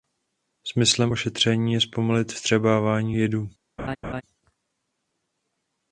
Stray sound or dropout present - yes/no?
yes